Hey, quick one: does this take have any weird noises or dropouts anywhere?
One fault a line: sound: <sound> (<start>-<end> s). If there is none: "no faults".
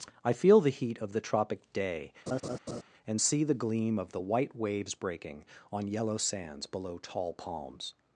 sound: laugh (2.3-2.8 s)